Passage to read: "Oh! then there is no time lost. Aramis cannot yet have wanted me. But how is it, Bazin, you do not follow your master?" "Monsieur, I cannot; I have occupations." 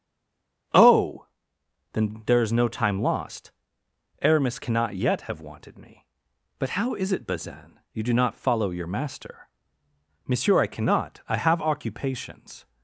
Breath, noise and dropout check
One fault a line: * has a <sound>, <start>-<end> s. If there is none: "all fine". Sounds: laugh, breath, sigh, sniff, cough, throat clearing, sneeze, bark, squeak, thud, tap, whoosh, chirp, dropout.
all fine